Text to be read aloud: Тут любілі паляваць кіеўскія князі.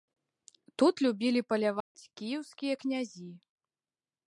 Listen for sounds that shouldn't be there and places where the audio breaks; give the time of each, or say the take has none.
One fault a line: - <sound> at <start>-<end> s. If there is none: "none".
- dropout at 1.8-2.0 s